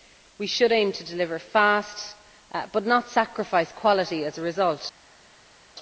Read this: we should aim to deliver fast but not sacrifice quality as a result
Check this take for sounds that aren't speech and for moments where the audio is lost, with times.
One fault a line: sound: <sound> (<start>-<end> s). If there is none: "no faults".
no faults